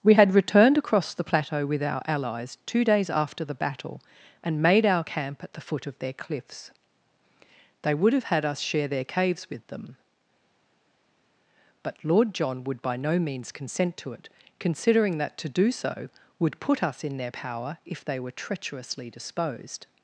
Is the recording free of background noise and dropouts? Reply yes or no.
yes